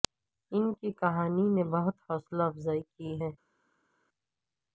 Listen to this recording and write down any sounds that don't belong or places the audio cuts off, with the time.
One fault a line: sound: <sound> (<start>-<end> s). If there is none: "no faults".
no faults